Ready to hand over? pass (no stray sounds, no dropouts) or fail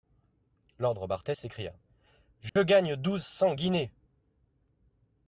fail